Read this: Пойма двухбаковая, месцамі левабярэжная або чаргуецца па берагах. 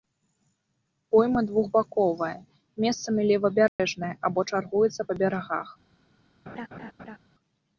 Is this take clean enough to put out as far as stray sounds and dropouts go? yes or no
no